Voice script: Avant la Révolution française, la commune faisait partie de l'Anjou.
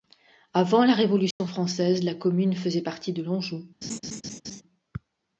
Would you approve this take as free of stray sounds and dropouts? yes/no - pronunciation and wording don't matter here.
no